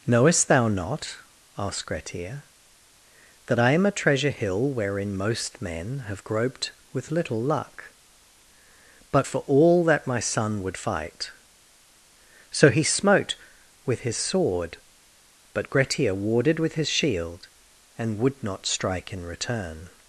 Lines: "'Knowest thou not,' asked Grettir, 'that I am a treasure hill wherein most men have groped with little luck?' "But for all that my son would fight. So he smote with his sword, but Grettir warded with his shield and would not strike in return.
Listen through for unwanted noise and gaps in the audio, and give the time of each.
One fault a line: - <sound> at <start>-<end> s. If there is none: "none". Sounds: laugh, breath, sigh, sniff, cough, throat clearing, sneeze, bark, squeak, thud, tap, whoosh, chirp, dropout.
none